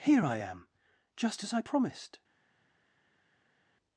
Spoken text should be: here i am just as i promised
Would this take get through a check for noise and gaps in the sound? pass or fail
pass